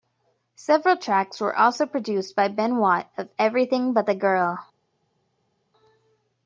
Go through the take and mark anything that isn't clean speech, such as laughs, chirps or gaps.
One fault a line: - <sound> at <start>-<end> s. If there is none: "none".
none